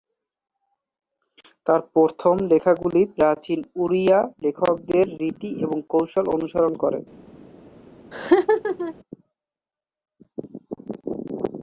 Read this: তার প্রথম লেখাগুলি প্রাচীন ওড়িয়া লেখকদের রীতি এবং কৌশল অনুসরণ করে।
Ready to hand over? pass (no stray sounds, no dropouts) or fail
fail